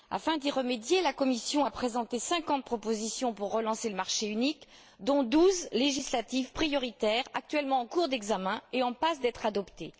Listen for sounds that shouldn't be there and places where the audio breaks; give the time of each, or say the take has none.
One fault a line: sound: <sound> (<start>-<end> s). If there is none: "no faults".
no faults